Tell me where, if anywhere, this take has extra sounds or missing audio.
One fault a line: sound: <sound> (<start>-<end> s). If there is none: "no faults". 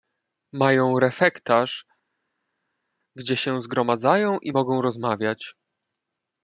no faults